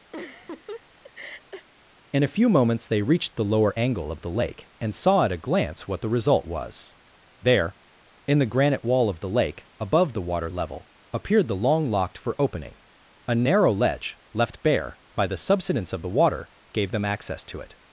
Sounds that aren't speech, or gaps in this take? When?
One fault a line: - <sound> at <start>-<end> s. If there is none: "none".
- laugh at 0.1-1.7 s